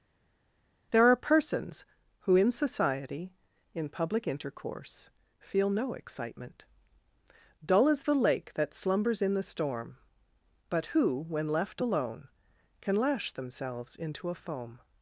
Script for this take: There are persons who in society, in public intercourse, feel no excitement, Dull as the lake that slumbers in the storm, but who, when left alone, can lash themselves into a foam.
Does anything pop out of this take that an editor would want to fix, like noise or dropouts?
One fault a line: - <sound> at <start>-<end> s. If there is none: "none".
none